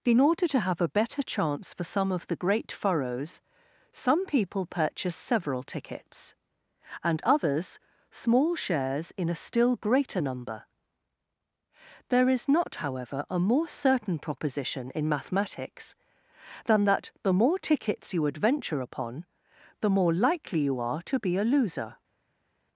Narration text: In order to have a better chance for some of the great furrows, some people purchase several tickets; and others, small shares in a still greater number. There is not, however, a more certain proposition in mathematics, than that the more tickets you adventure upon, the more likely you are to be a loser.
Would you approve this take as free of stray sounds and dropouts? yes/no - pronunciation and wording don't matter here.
yes